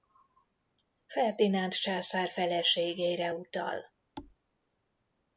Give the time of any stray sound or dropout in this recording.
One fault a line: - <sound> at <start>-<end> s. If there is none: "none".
- thud at 4.2-4.4 s